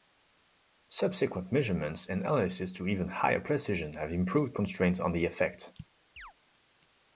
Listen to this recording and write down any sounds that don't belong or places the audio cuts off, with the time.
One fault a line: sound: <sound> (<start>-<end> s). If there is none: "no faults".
sound: chirp (6.2-6.3 s)